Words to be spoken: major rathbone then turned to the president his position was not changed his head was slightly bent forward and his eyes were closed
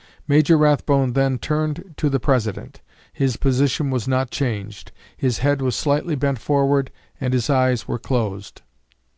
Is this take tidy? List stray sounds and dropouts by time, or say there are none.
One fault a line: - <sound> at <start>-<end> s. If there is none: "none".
none